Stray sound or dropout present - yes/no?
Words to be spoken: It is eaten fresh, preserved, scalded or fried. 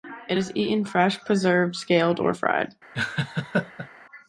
yes